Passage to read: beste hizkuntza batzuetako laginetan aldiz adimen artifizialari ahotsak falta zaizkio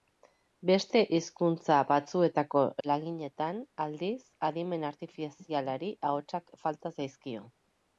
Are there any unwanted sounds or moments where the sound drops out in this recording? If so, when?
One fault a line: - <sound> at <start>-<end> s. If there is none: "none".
none